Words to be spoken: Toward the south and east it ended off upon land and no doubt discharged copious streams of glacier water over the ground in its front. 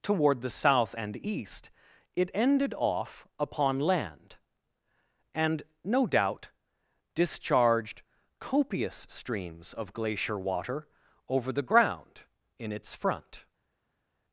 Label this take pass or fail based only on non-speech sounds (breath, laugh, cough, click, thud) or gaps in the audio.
pass